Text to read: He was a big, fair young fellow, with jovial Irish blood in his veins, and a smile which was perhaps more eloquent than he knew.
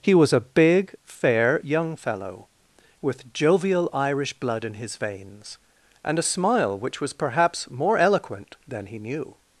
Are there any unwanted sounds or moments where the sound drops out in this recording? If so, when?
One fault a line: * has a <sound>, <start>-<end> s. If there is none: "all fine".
all fine